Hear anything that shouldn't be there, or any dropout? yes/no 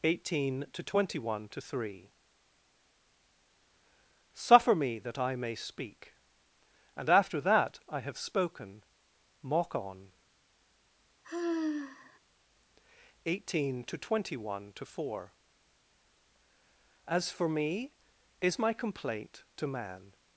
yes